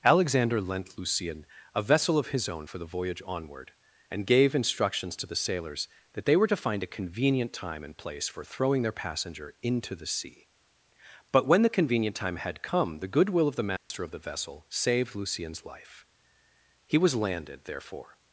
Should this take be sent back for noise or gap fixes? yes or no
yes